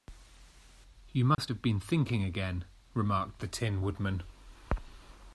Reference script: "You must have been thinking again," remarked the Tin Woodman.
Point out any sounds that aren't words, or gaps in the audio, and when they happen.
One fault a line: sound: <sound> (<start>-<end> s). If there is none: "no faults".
sound: dropout (1.3-1.4 s)